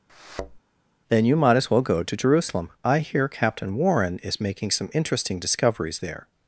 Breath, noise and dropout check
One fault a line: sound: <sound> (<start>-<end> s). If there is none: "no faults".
sound: thud (0.1-0.6 s)